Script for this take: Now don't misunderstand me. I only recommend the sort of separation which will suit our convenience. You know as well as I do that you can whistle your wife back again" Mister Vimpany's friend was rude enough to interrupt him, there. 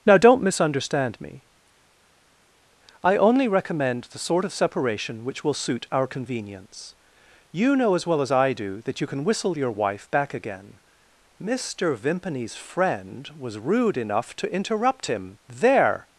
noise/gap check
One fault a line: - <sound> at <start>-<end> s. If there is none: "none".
none